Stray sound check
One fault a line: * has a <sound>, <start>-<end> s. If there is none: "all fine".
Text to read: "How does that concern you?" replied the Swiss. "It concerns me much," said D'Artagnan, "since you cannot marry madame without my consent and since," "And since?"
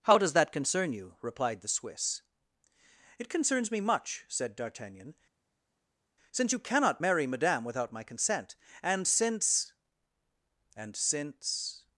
all fine